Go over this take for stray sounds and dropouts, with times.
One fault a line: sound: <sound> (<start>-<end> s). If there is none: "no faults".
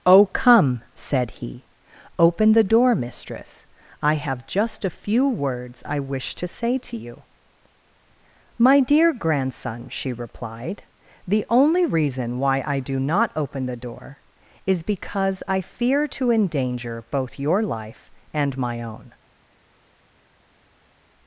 no faults